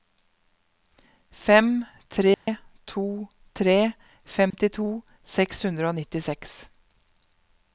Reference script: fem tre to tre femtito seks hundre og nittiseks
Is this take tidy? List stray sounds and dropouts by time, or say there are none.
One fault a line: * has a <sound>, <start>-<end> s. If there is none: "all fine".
* has a dropout, 2.3-2.5 s
* has a dropout, 4.5-4.5 s